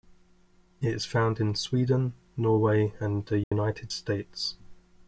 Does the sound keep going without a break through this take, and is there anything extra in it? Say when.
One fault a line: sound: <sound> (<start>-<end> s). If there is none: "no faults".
sound: dropout (3.4-3.5 s)